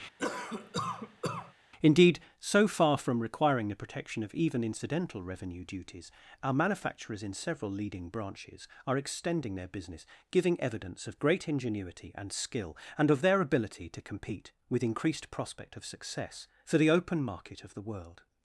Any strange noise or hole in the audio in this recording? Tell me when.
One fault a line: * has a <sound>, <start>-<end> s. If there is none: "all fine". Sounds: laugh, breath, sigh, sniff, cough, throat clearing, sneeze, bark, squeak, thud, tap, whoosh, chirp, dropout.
* has a cough, 0.2-1.5 s